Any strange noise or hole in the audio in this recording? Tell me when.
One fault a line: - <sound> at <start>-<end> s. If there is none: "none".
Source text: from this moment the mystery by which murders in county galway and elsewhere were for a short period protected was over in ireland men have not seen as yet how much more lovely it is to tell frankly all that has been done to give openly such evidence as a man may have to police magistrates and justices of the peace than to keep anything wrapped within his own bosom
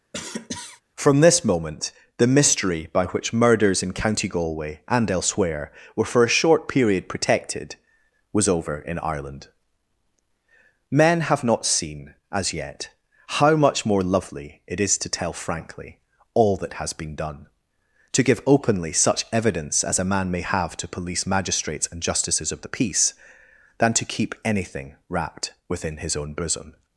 - cough at 0.1-0.8 s